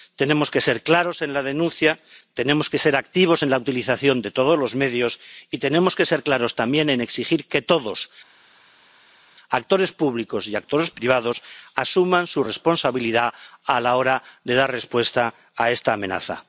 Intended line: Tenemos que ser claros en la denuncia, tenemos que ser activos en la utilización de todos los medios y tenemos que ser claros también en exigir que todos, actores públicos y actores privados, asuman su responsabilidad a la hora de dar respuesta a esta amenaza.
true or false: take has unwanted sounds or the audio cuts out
false